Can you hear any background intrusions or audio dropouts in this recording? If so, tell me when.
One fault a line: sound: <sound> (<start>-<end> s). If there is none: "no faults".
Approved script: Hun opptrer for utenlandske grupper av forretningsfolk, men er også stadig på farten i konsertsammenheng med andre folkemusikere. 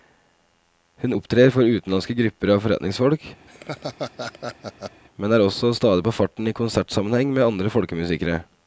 sound: laugh (3.5-5.0 s)